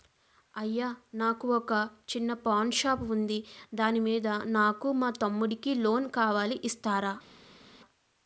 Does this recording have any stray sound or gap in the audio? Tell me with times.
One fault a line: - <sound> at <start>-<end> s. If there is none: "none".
none